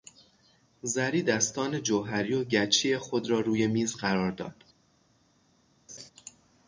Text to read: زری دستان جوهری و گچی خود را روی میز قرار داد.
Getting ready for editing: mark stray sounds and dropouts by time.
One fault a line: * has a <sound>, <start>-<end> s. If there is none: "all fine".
* has a laugh, 5.9-6.1 s